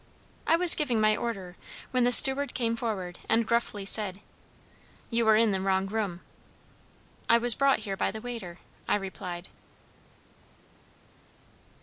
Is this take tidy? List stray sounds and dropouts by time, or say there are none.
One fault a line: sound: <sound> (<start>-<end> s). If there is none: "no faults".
no faults